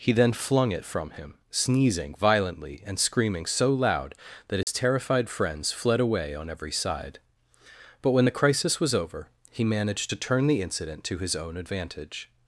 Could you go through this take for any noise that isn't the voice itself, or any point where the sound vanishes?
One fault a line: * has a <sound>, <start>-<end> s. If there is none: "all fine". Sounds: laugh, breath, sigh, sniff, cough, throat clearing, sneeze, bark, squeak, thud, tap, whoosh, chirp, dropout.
* has a dropout, 4.6-4.7 s